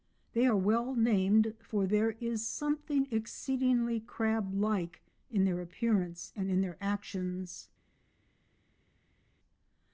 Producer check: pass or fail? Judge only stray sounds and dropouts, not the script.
pass